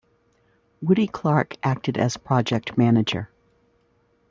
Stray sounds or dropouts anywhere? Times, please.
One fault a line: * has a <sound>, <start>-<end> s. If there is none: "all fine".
all fine